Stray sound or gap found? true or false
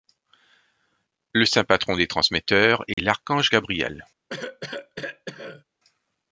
true